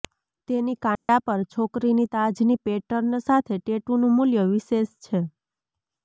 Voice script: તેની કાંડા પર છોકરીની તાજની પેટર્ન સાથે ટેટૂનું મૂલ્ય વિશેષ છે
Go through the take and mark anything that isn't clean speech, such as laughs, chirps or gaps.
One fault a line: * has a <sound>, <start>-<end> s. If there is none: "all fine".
* has a dropout, 1.0-1.1 s